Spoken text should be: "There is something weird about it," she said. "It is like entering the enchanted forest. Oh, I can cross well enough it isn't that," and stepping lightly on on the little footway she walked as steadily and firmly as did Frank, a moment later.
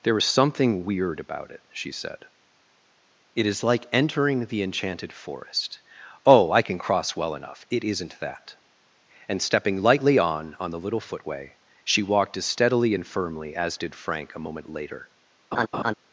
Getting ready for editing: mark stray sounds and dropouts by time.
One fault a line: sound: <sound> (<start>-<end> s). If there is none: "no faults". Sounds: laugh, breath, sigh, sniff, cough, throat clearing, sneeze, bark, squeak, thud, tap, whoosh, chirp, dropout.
sound: laugh (15.5-15.9 s)